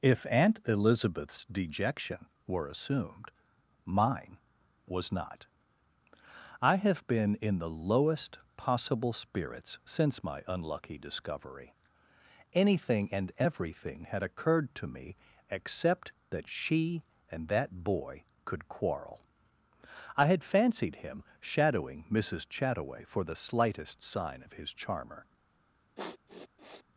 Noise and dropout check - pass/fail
fail